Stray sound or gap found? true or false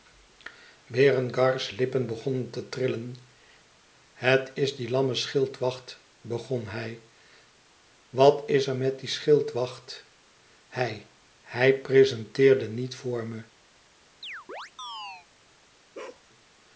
true